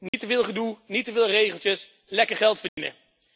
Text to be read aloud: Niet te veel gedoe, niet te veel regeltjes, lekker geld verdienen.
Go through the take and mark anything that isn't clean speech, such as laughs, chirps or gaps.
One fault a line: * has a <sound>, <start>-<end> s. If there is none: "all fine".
* has a dropout, 0.1-0.1 s
* has a dropout, 2.7-2.8 s